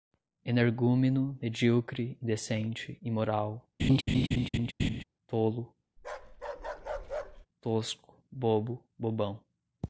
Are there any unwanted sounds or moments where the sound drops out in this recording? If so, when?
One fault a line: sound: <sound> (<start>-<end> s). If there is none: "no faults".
sound: laugh (3.8-5.0 s)
sound: bark (6.0-7.5 s)